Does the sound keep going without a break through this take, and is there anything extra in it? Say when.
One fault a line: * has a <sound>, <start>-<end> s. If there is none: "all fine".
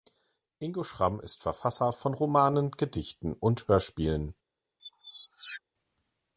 * has a squeak, 4.8-5.6 s